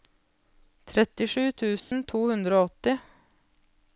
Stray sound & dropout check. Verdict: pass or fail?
fail